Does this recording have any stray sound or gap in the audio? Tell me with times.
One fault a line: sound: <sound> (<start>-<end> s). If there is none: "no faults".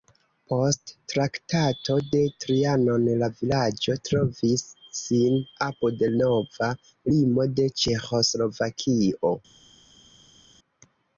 no faults